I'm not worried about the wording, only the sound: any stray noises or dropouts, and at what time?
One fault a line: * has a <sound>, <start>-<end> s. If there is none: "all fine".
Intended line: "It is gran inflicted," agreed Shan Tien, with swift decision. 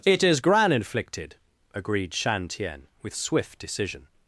all fine